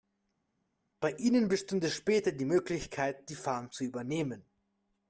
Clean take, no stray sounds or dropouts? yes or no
yes